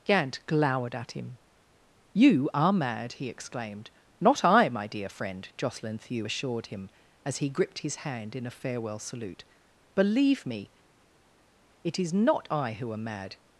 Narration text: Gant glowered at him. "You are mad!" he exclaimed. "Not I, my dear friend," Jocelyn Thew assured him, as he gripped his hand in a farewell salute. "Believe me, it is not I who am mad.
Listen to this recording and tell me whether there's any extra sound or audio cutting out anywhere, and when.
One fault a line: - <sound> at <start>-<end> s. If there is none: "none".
none